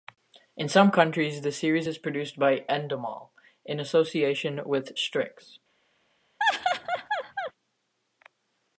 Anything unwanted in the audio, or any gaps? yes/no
yes